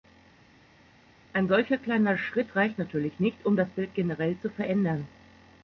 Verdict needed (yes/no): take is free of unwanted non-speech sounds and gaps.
yes